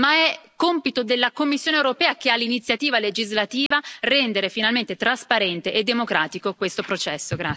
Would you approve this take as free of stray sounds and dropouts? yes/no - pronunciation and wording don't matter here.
no